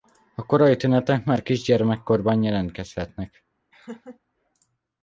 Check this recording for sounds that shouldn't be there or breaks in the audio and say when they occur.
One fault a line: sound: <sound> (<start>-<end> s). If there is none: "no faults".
sound: laugh (3.7-4.2 s)